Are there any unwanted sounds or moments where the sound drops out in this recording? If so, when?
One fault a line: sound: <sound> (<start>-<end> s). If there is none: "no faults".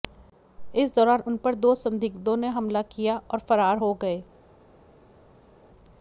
no faults